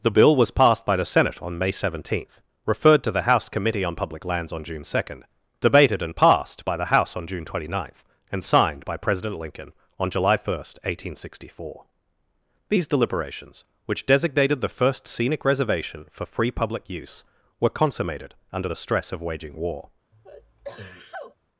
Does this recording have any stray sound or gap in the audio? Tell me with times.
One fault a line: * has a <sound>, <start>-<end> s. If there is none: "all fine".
* has a sneeze, 20.1-21.4 s